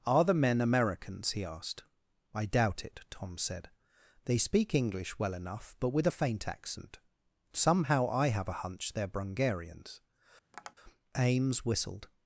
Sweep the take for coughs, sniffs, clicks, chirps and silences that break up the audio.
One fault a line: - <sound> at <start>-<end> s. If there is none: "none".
- tap at 10.5-10.8 s